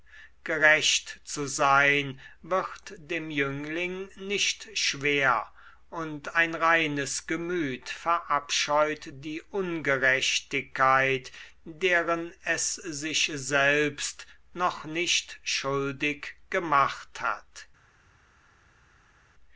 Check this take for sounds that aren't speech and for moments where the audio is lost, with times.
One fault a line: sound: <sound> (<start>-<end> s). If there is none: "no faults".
no faults